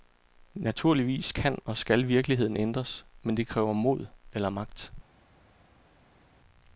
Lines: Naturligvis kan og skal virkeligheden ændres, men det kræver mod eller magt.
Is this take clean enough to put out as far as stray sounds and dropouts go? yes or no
yes